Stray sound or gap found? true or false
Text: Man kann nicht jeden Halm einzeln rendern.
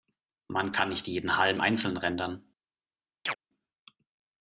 true